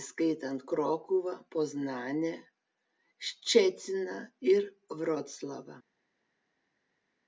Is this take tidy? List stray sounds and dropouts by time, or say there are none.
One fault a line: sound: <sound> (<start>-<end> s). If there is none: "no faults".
no faults